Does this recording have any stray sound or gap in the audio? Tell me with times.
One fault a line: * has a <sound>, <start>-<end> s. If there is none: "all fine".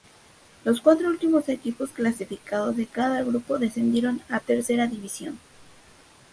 all fine